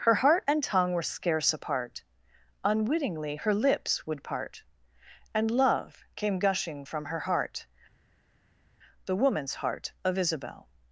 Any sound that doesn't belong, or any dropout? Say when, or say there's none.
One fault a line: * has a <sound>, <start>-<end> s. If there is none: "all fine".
all fine